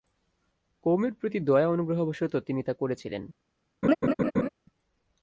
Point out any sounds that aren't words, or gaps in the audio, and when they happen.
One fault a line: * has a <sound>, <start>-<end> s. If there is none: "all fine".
* has a laugh, 3.8-4.5 s